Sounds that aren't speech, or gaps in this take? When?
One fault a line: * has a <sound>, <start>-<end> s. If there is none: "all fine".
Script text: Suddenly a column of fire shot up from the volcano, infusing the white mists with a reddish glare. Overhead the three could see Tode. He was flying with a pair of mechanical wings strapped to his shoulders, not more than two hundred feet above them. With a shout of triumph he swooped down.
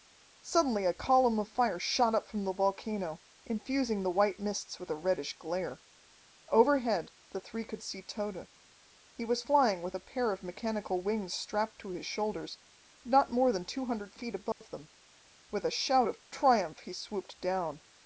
* has a dropout, 14.5-14.6 s